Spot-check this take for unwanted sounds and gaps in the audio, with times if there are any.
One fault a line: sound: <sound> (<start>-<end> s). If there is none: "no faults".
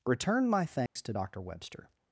sound: dropout (0.9-1.0 s)